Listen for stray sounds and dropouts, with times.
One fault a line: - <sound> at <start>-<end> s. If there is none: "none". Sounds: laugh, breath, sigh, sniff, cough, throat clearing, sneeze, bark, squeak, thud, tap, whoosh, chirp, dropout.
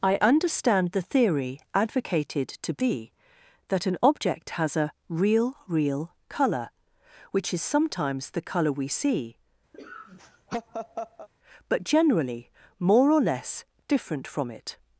- laugh at 9.7-11.3 s